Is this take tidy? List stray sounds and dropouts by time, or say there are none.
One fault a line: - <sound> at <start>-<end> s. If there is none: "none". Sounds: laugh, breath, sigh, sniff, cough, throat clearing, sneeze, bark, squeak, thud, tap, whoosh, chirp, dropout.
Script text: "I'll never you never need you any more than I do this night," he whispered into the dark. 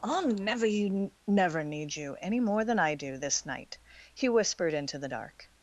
none